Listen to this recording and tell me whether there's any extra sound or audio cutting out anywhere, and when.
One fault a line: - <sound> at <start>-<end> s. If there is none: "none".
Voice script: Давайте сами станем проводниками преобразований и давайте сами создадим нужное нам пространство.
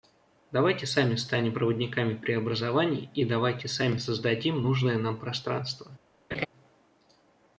- laugh at 6.3-6.5 s